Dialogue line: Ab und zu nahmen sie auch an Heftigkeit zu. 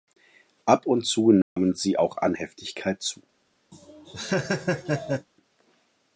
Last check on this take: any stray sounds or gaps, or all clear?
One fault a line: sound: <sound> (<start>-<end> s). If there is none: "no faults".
sound: dropout (1.4-1.6 s)
sound: laugh (3.7-5.3 s)